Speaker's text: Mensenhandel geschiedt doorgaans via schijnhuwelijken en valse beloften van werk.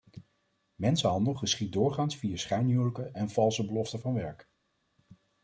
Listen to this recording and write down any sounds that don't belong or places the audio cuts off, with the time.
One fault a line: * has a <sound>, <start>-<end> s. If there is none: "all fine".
all fine